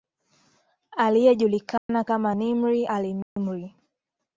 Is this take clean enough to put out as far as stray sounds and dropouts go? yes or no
no